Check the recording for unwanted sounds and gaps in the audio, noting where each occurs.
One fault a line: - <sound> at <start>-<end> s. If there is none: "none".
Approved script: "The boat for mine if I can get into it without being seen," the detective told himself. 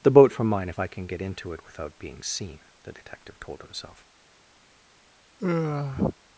- sigh at 5.4-6.2 s